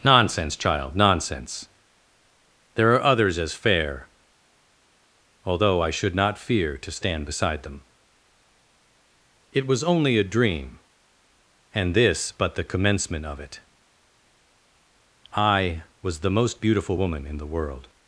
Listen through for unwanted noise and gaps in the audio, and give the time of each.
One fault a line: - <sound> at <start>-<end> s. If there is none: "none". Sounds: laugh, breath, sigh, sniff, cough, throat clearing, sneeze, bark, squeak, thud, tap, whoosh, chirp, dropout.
none